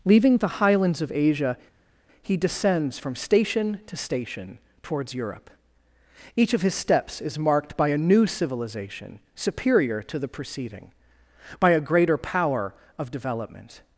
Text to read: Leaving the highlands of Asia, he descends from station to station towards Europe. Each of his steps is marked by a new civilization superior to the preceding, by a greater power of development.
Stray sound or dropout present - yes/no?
no